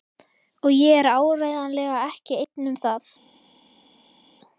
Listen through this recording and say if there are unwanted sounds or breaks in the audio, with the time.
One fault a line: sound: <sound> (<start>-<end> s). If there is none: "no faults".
no faults